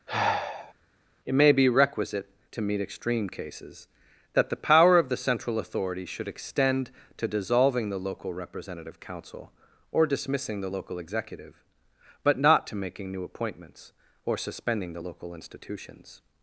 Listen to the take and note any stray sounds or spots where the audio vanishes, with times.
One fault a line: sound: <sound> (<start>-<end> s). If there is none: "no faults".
sound: sigh (0.1-0.7 s)